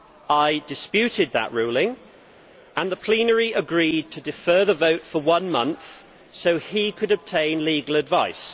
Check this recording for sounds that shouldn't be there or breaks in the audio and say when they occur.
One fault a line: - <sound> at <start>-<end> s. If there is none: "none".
none